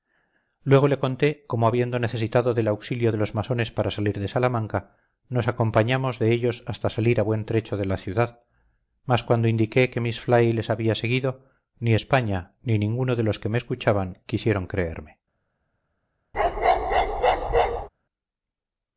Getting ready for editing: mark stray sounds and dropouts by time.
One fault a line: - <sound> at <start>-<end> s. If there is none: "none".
- bark at 16.3-17.9 s